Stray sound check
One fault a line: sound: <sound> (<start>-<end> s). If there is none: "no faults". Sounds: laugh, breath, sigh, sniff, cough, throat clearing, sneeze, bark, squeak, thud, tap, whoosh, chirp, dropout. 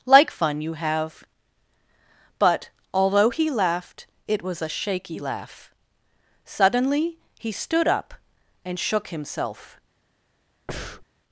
sound: breath (10.7-11.1 s)